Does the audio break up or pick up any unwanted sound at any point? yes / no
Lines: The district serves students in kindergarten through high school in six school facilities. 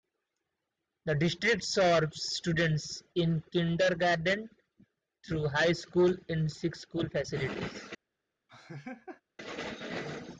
yes